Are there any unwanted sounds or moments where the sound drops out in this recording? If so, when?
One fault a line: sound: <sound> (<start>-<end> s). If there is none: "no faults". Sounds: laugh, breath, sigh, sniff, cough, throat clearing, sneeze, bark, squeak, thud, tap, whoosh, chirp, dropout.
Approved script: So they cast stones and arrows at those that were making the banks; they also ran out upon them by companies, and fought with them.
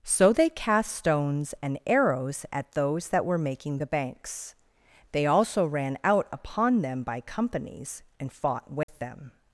sound: dropout (8.8-8.9 s)